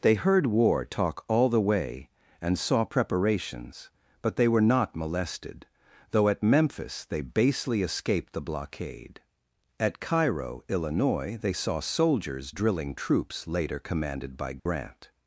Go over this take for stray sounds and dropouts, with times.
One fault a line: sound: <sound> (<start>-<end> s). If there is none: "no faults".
sound: dropout (14.6-14.7 s)